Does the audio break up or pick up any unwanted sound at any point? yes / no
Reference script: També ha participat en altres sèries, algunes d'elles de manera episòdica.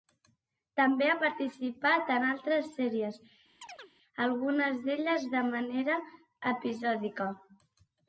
yes